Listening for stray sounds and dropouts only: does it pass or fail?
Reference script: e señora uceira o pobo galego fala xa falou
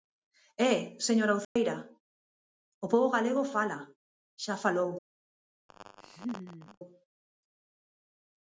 fail